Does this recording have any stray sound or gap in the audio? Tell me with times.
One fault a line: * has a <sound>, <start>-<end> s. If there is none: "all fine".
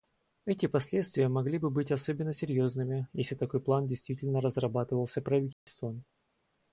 * has a dropout, 5.5-5.7 s